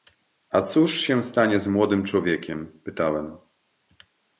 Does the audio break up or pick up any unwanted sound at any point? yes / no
no